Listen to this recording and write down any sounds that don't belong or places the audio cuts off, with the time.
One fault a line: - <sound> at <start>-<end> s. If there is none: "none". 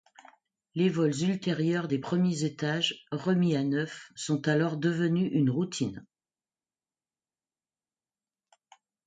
none